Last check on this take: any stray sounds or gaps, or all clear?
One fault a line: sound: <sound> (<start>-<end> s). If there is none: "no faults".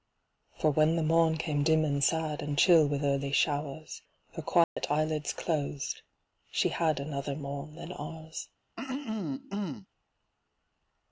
sound: dropout (4.6-4.8 s)
sound: throat clearing (8.8-9.9 s)